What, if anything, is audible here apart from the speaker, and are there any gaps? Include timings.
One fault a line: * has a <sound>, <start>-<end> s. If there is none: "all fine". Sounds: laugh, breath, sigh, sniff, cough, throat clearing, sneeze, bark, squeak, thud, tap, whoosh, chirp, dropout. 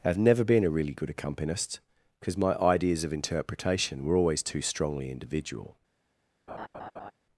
* has a laugh, 6.5-7.1 s